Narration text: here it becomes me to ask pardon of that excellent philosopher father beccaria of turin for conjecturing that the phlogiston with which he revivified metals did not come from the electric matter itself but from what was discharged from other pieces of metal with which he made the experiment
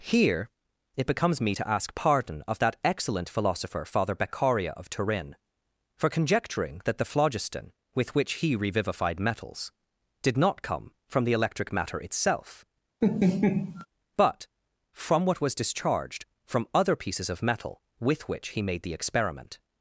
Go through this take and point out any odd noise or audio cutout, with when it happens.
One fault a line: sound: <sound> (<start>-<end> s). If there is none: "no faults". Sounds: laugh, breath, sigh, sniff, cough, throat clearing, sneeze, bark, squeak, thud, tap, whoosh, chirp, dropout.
sound: laugh (13.0-13.9 s)